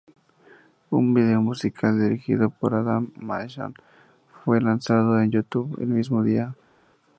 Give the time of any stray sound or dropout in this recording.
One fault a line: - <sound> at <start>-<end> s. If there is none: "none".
none